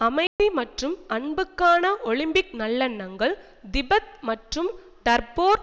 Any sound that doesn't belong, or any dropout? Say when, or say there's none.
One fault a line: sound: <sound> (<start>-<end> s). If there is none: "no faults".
sound: dropout (0.3-0.4 s)